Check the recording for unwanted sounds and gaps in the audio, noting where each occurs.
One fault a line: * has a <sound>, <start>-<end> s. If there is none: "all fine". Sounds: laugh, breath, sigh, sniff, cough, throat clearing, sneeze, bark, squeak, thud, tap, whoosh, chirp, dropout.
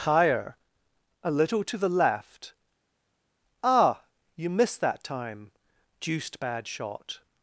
all fine